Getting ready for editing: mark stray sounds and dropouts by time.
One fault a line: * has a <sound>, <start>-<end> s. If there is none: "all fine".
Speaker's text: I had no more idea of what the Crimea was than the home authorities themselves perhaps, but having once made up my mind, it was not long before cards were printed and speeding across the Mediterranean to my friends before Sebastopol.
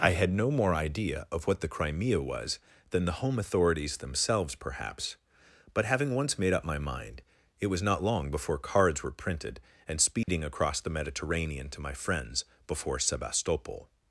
* has a dropout, 10.2-10.3 s